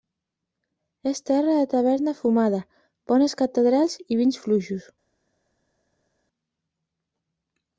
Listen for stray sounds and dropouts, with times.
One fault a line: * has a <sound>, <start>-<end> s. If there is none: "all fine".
all fine